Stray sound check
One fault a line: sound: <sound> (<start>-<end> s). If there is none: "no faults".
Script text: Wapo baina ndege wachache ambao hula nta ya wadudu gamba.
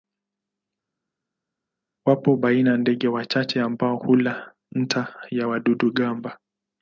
no faults